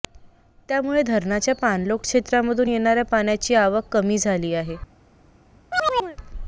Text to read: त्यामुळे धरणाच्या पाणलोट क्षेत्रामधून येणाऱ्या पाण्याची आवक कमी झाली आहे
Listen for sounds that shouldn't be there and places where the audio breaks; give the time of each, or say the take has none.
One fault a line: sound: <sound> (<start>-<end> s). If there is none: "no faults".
sound: chirp (5.7-6.2 s)